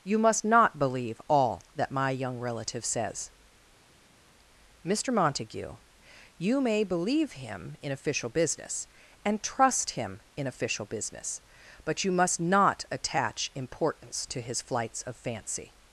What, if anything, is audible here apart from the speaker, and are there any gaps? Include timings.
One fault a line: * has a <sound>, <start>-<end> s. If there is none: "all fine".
all fine